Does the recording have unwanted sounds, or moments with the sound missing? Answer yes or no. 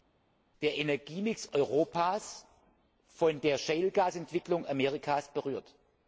no